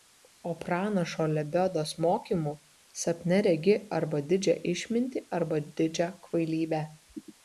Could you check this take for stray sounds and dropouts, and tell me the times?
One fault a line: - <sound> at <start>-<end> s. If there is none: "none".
none